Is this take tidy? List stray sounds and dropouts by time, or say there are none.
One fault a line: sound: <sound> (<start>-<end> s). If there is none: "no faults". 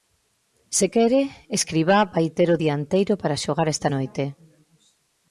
no faults